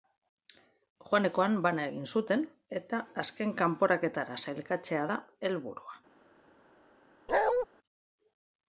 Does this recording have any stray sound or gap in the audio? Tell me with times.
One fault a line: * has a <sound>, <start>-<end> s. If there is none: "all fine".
* has a bark, 7.3-7.7 s